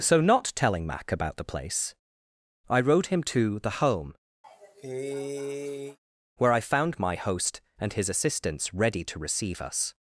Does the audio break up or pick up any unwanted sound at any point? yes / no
yes